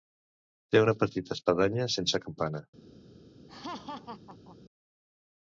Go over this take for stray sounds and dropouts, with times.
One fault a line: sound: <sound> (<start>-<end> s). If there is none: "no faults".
sound: laugh (3.5-4.6 s)